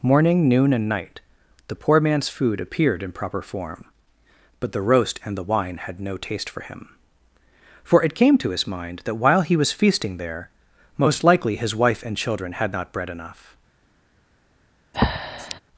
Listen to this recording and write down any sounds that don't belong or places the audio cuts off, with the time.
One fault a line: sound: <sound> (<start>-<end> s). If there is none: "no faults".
sound: breath (14.9-15.6 s)